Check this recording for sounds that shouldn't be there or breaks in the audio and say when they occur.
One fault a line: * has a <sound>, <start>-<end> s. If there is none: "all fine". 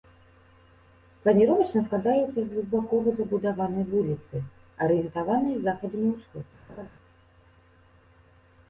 * has a laugh, 6.7-6.9 s